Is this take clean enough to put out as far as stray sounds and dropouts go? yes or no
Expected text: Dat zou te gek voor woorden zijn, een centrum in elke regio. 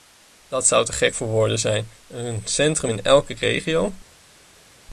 yes